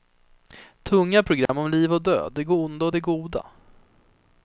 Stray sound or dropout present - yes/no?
yes